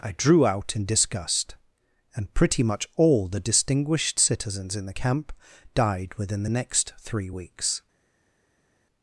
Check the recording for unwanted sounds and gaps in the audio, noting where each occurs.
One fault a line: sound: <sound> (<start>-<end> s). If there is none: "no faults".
no faults